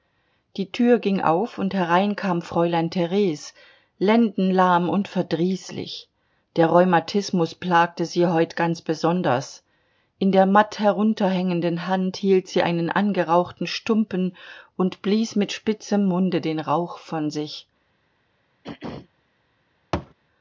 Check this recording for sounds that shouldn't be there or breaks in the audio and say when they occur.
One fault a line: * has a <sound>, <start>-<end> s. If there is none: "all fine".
* has a throat clearing, 18.6-19.1 s
* has a thud, 19.9-20.1 s